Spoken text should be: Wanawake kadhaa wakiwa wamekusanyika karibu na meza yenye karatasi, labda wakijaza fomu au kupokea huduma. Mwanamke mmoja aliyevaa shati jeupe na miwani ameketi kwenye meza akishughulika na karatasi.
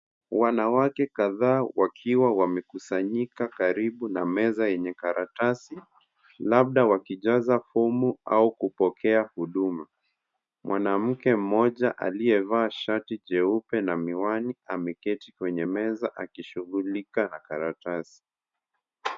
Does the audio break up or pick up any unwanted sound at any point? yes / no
no